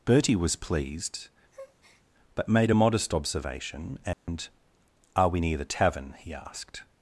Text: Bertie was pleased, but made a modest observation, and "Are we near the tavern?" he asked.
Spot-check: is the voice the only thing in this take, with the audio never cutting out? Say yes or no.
no